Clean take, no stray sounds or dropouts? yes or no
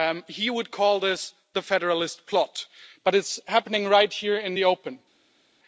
yes